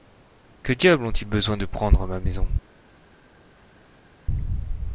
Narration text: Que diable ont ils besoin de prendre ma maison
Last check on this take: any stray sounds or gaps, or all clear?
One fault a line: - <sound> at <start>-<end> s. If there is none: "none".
none